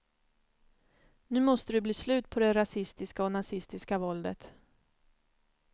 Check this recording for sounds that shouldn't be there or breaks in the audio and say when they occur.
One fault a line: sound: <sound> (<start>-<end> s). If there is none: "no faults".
no faults